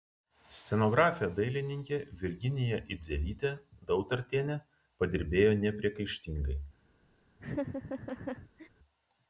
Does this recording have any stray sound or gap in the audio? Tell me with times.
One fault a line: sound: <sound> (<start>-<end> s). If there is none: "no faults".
sound: laugh (7.4-8.7 s)